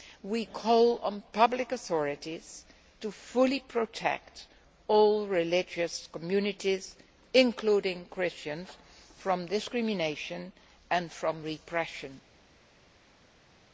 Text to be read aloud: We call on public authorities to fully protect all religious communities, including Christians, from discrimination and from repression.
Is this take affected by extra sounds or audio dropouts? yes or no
no